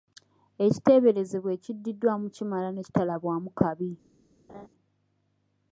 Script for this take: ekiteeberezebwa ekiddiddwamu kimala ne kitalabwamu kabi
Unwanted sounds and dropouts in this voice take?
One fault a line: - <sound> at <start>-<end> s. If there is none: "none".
- laugh at 4.5-4.7 s